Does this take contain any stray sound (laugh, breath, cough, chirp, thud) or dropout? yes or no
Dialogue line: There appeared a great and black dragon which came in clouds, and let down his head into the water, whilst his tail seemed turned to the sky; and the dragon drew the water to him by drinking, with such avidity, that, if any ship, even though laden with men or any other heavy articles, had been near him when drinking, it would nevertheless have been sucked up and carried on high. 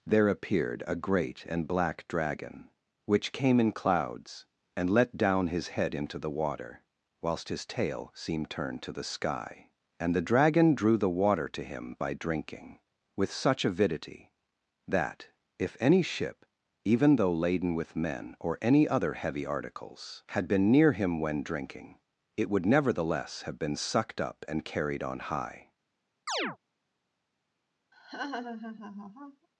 yes